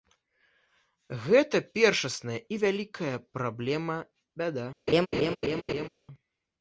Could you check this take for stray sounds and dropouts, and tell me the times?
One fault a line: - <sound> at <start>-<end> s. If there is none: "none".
- laugh at 4.9-5.9 s